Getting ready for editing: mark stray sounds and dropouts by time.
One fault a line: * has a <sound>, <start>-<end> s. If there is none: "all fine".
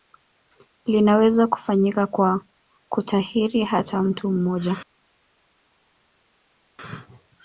all fine